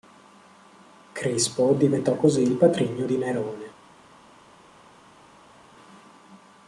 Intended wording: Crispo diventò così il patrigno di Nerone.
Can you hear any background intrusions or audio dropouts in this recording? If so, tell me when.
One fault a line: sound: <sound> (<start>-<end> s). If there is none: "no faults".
no faults